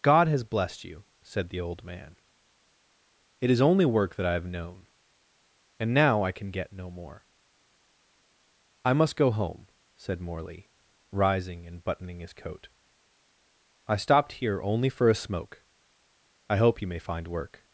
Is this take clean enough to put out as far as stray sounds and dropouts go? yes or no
yes